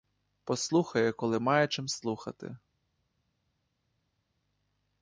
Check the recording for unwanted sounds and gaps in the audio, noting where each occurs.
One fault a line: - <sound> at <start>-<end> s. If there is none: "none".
none